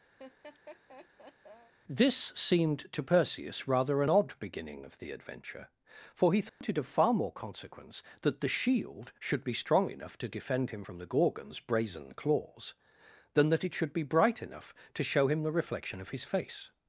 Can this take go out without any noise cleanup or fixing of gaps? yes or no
no